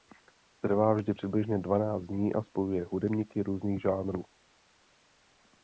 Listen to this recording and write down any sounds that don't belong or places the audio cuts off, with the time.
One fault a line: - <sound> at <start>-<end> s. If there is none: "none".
none